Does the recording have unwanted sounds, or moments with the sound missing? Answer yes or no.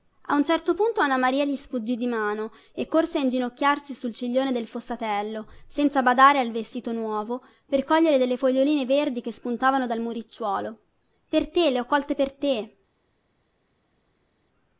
no